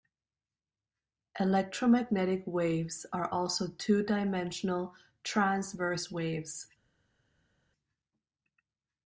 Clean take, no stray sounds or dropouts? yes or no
yes